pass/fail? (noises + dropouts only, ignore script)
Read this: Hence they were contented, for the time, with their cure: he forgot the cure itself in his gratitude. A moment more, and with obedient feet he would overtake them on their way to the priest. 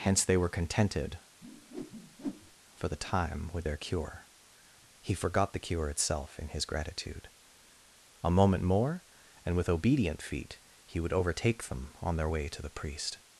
fail